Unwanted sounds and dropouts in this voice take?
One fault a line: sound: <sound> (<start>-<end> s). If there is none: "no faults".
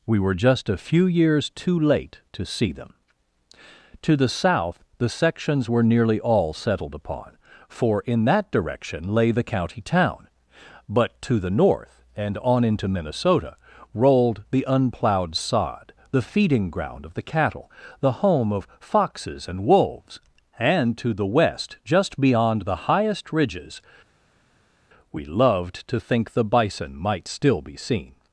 no faults